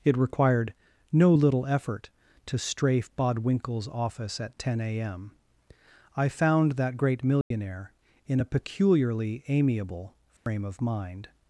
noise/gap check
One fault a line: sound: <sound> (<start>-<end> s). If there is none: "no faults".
sound: dropout (7.4-7.5 s)
sound: dropout (10.4-10.5 s)